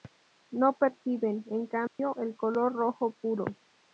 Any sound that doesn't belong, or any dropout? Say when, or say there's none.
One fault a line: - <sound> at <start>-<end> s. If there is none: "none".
- dropout at 1.9-2.0 s